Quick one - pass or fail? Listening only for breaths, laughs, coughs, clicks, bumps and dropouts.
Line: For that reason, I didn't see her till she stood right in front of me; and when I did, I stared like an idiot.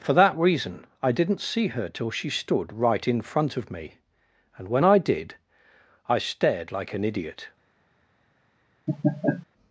fail